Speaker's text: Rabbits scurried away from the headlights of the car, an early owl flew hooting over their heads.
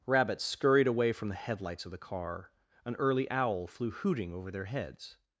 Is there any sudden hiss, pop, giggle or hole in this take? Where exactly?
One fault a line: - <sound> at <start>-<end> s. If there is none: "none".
none